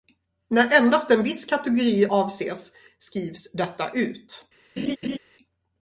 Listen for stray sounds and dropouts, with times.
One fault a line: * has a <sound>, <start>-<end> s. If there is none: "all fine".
* has a laugh, 4.8-5.2 s